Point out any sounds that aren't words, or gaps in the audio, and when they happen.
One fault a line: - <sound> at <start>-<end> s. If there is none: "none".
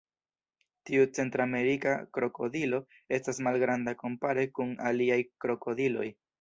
none